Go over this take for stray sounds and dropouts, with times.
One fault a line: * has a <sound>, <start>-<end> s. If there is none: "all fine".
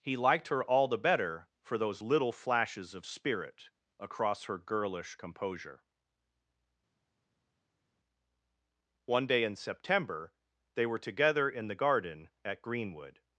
all fine